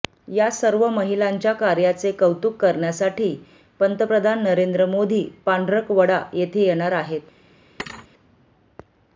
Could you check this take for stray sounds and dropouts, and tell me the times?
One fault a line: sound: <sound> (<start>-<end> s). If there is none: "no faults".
sound: thud (7.8-8.1 s)